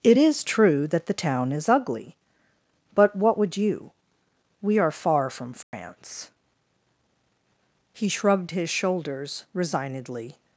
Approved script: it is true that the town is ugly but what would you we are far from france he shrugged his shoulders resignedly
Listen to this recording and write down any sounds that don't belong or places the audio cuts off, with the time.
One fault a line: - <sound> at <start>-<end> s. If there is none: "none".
- dropout at 5.6-5.7 s